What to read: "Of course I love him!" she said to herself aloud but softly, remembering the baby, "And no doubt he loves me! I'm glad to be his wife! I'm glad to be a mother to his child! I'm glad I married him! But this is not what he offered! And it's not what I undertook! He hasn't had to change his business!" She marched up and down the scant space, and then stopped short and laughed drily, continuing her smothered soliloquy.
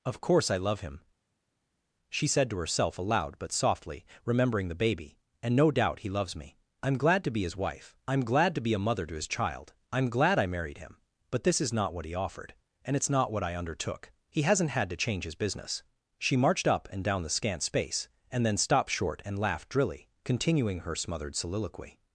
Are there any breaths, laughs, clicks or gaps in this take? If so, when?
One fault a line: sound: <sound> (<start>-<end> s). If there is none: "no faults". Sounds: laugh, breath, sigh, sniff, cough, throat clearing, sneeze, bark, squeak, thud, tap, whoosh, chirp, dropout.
no faults